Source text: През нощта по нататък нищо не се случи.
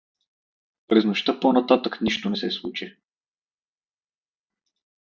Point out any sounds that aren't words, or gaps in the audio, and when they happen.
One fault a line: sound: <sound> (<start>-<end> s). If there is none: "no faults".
no faults